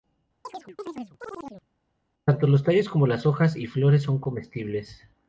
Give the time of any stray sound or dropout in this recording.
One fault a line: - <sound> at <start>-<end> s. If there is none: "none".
- chirp at 0.4-1.7 s